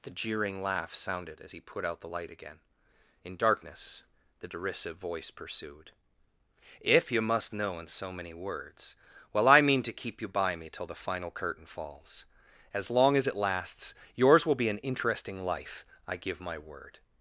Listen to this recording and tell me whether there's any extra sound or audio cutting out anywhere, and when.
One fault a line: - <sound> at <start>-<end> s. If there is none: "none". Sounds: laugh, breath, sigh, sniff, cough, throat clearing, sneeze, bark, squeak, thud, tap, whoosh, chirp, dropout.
none